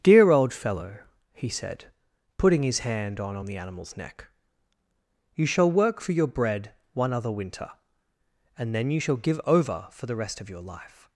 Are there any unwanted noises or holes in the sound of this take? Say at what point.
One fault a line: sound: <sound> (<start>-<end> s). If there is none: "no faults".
no faults